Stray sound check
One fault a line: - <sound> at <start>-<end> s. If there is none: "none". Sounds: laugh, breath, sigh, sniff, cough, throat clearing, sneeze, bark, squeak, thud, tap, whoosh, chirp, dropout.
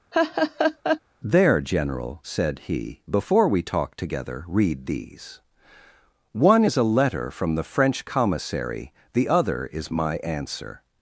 - laugh at 0.1-1.0 s